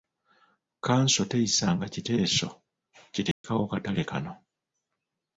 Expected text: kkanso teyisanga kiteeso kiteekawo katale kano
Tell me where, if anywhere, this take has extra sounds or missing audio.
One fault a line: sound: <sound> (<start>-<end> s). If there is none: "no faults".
sound: dropout (3.3-3.4 s)